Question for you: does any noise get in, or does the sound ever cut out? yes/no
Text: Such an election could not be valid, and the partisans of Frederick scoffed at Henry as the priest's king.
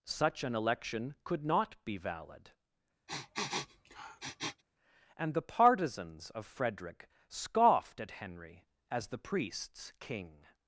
yes